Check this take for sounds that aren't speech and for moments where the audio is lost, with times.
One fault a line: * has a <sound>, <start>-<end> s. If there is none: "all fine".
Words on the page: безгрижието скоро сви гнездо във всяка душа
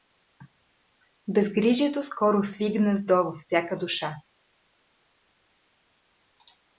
all fine